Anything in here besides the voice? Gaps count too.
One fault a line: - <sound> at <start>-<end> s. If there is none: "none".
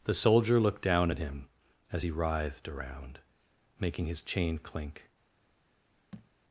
- thud at 6.1-6.3 s